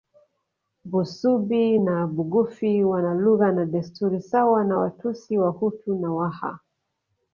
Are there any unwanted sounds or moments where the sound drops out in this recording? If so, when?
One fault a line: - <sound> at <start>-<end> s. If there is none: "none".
none